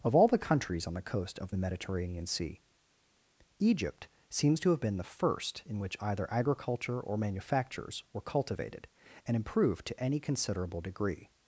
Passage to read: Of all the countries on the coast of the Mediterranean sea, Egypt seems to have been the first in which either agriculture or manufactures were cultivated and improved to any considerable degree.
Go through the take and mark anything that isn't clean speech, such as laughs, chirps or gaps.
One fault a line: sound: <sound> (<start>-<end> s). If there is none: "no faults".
no faults